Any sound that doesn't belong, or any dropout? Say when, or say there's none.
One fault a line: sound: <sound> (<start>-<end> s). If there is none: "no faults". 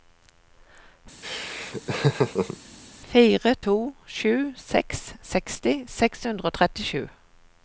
sound: laugh (1.2-2.6 s)